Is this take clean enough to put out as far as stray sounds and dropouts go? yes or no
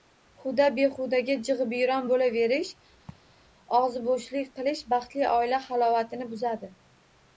no